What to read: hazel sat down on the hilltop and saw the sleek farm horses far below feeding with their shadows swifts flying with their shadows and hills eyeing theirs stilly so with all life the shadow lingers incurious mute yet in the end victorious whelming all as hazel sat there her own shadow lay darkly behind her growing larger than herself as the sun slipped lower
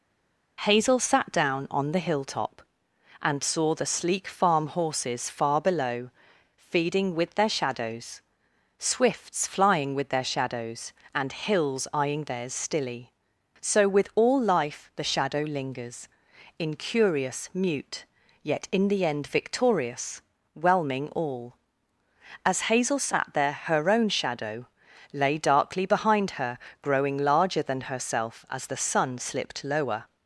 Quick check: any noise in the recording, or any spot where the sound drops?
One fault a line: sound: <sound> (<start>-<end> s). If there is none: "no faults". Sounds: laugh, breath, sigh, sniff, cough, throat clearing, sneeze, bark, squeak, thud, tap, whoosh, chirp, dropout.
no faults